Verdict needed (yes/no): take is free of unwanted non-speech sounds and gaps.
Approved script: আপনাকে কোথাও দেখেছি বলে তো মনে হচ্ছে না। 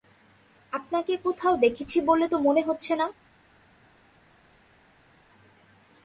yes